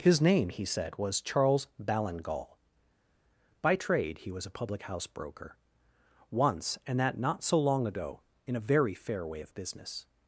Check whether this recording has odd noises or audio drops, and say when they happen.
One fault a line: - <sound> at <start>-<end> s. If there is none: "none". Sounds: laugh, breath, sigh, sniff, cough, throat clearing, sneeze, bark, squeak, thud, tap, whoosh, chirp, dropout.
none